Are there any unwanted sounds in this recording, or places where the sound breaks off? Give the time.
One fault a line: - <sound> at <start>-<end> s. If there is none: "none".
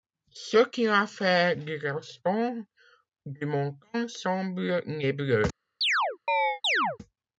- chirp at 5.8-7.0 s